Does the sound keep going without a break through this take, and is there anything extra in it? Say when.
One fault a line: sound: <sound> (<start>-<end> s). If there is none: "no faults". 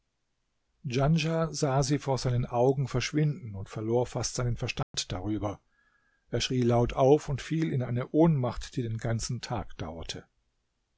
sound: dropout (4.8-4.9 s)